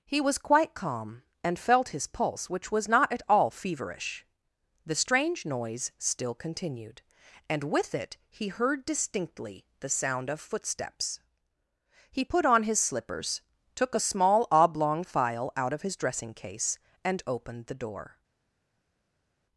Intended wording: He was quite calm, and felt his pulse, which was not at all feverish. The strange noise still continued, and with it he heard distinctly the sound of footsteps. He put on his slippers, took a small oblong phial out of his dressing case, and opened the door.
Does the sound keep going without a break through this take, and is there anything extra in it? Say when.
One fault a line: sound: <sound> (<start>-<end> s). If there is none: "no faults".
no faults